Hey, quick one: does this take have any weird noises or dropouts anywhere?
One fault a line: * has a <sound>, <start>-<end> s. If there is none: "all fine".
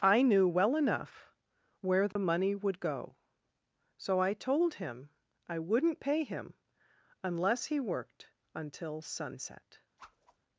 * has a dropout, 2.1-2.2 s
* has a whoosh, 10.0-10.4 s